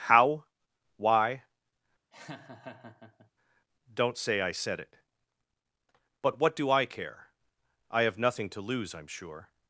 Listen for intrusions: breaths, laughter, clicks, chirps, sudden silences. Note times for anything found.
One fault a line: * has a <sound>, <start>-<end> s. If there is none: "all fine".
* has a laugh, 2.1-3.3 s